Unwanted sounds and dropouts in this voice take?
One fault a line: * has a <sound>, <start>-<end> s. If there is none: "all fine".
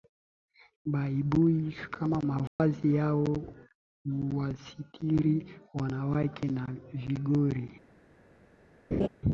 * has a dropout, 2.5-2.6 s
* has a laugh, 8.9-9.1 s